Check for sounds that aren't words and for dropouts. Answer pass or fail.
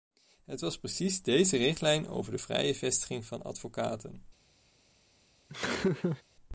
fail